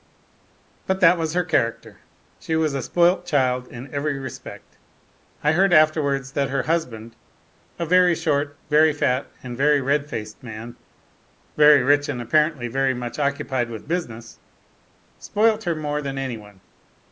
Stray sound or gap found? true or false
false